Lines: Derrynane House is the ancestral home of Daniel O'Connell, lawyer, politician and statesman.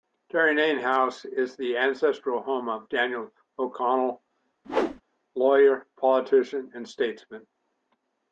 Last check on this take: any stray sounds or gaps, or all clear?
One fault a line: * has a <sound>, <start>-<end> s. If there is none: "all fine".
* has a whoosh, 4.6-5.0 s